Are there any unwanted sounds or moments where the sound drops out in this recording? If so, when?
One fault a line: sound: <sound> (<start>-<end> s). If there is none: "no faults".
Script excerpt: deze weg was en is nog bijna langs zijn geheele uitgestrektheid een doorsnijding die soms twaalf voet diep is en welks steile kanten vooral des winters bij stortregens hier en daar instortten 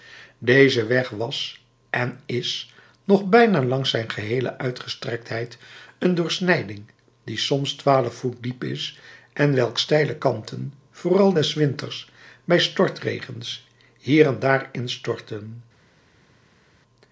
no faults